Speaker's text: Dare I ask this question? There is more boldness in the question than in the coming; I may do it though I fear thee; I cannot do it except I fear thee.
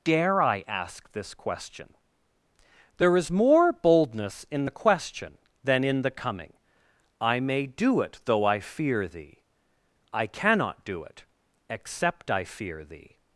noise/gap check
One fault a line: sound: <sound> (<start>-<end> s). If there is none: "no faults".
no faults